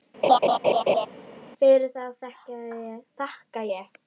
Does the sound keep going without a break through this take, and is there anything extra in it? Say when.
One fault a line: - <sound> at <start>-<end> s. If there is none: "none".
- laugh at 0.2-1.1 s